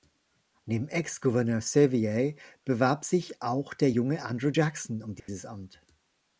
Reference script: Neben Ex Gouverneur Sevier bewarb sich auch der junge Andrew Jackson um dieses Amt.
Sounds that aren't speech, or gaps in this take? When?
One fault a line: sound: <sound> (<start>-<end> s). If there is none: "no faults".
sound: dropout (5.2-5.3 s)